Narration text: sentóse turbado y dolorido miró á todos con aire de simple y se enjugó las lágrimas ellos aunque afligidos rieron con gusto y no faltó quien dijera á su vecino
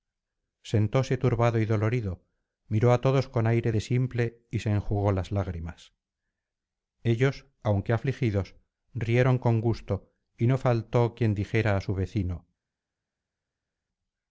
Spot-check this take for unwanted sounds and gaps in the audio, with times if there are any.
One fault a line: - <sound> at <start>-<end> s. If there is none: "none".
none